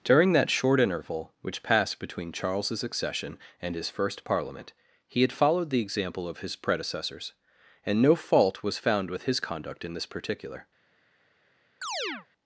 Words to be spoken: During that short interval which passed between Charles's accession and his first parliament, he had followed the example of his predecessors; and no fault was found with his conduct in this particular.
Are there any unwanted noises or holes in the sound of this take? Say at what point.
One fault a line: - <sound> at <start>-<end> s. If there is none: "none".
- chirp at 11.8-12.3 s